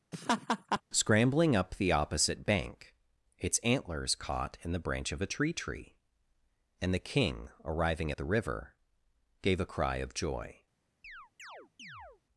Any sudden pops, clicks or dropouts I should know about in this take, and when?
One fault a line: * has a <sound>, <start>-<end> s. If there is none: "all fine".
* has a laugh, 0.1-0.8 s
* has a chirp, 11.0-12.2 s